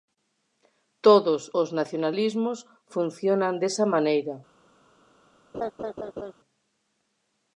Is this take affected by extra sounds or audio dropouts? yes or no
yes